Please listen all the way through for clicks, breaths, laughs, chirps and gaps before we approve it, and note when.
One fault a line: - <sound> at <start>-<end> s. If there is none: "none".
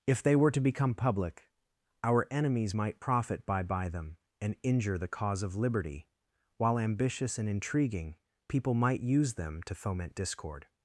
none